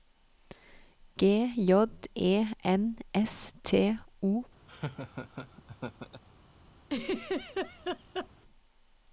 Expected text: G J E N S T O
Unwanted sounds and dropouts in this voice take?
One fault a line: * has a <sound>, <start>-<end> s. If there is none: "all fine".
* has a laugh, 4.7-6.2 s
* has a laugh, 6.8-8.3 s